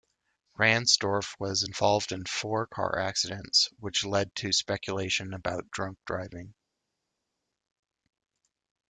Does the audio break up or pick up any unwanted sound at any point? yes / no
no